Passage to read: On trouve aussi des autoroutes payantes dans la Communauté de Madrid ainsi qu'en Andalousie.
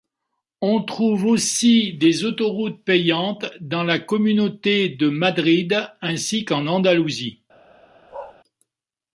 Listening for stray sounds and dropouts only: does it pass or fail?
fail